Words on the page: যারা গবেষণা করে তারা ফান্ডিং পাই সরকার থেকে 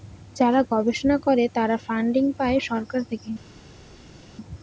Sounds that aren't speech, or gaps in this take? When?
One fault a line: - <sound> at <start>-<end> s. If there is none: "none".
none